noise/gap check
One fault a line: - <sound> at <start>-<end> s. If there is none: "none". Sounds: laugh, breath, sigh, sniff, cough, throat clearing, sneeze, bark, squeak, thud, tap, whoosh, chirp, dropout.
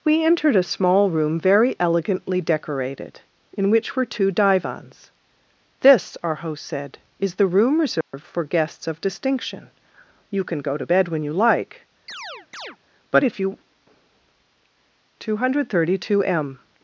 - dropout at 8.0-8.1 s
- chirp at 12.1-12.8 s